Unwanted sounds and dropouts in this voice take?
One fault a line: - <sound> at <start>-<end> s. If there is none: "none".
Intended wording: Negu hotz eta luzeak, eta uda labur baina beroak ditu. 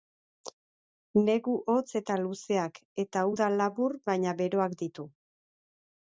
none